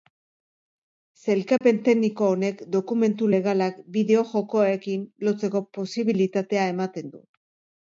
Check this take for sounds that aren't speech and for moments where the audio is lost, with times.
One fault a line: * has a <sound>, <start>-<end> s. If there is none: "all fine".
* has a dropout, 1.6-1.6 s